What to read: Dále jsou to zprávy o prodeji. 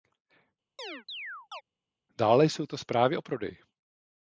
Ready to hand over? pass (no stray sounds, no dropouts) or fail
fail